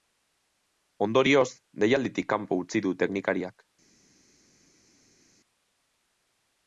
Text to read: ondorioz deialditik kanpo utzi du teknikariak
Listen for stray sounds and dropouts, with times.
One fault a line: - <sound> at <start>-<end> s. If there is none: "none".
none